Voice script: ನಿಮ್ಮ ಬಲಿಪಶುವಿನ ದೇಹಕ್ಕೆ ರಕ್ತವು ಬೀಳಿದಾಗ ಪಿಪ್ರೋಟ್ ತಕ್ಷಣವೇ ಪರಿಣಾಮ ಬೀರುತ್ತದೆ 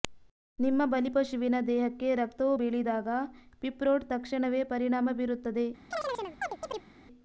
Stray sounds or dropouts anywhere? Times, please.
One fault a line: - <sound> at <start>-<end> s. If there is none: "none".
- chirp at 5.9-6.9 s